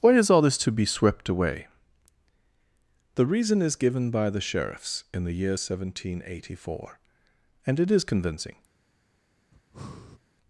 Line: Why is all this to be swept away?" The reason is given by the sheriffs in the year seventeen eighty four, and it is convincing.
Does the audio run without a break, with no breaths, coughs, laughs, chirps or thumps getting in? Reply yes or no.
no